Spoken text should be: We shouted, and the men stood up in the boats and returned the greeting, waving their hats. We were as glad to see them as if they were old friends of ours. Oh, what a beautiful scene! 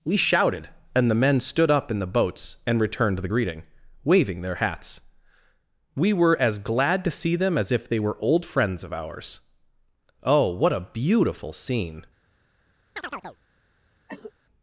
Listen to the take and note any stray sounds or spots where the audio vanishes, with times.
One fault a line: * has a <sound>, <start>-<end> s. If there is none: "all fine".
* has a chirp, 13.0-13.4 s
* has a cough, 14.1-14.3 s